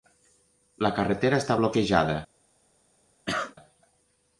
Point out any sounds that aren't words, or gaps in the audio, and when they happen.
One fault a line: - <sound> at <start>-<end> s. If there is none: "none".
- cough at 3.3-3.6 s